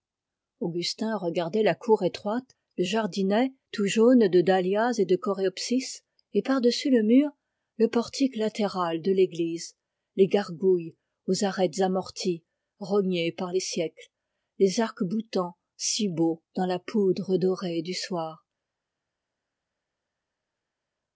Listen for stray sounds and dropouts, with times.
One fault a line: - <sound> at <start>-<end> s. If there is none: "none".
none